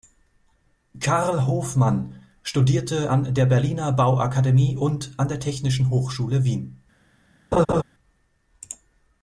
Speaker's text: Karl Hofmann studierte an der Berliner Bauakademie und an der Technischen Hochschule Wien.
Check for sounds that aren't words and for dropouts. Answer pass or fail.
fail